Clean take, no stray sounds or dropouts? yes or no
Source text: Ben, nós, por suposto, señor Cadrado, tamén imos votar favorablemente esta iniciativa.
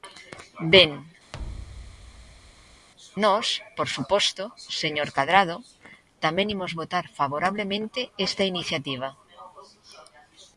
no